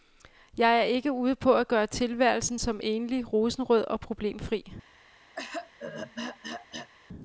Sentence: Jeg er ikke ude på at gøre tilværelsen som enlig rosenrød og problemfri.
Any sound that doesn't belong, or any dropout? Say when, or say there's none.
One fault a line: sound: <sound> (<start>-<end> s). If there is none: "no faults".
sound: throat clearing (5.3-6.9 s)